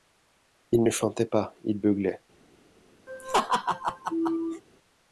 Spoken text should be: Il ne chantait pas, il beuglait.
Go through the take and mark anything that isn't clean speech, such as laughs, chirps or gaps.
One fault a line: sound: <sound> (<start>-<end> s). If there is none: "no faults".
sound: laugh (3.1-4.6 s)